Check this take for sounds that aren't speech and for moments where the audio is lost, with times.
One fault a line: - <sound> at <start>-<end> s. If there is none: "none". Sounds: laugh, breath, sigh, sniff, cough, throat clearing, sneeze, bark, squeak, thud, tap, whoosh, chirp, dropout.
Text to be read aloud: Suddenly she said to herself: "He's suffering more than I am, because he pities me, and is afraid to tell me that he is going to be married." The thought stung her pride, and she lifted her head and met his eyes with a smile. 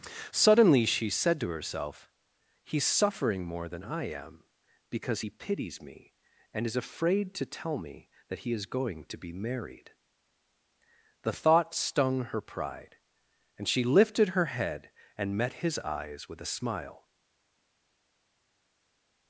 none